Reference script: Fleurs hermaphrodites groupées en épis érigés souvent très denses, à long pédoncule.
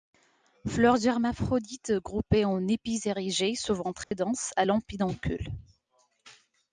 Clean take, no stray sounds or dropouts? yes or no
no